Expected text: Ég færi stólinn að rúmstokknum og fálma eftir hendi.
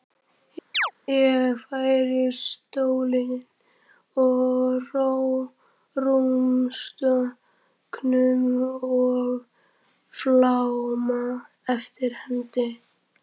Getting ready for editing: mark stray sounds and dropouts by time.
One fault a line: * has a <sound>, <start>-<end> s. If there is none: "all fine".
* has a chirp, 0.7-0.9 s